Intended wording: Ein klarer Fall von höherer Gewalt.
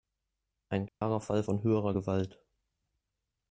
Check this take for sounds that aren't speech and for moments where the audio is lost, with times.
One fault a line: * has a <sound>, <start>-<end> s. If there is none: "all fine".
* has a dropout, 0.9-1.0 s